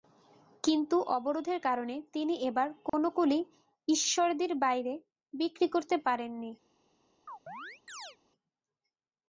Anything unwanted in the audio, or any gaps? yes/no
yes